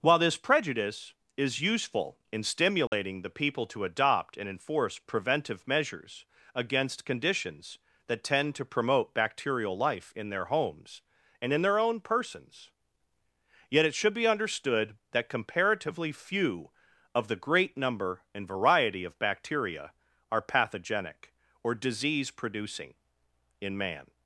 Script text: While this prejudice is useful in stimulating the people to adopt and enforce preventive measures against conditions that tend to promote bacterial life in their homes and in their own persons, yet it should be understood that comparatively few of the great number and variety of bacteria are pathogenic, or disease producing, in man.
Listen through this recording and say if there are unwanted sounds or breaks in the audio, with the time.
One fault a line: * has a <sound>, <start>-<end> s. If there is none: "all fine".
* has a dropout, 2.9-2.9 s